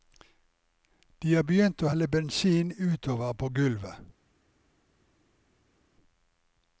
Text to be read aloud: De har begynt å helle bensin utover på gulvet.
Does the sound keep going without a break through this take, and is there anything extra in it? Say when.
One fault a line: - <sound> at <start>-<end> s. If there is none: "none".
none